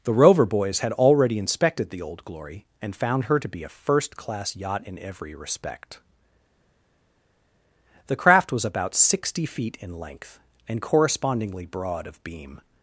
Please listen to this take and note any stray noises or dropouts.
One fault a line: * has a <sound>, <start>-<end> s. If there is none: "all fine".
all fine